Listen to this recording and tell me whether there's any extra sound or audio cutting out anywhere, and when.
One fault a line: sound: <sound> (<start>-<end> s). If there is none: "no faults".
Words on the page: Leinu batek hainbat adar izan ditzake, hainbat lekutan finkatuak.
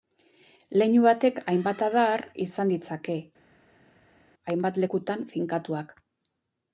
no faults